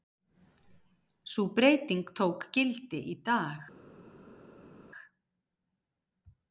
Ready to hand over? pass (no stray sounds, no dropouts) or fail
pass